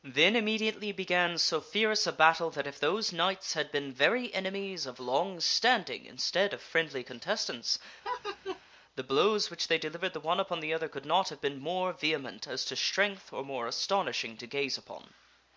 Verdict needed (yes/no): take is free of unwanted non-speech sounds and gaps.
no